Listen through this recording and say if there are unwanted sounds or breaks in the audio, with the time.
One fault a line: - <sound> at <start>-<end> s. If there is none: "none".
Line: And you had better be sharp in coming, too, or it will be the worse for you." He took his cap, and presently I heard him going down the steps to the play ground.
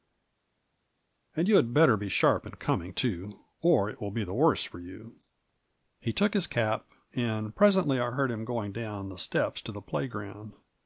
none